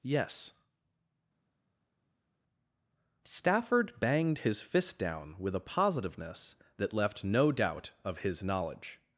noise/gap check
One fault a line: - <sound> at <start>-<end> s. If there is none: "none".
none